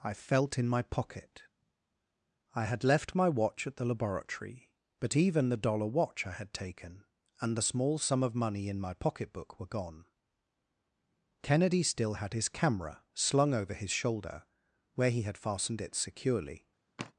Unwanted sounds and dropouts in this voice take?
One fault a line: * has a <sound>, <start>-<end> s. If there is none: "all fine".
* has a sigh, 17.0-17.1 s